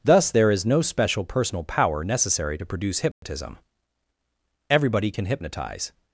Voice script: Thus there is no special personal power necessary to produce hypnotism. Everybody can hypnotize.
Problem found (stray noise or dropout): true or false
true